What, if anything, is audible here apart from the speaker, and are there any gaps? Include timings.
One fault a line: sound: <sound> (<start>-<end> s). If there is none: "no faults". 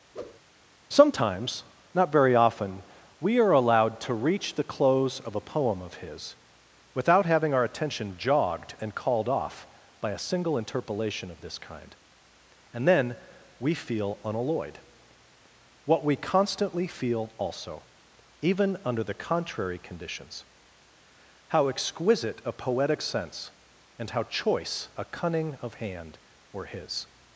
sound: whoosh (0.1-0.4 s)